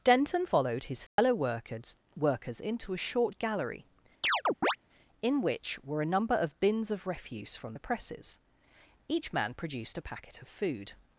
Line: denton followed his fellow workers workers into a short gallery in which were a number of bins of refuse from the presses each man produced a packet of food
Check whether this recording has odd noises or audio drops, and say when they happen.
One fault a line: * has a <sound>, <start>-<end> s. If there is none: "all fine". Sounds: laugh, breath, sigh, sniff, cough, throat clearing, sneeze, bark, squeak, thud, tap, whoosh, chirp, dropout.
* has a dropout, 1.1-1.2 s
* has a chirp, 4.2-4.8 s